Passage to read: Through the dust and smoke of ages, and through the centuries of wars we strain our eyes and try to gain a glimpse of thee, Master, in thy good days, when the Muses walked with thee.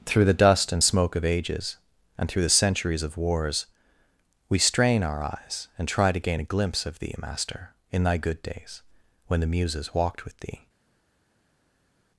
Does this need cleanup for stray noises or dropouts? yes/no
no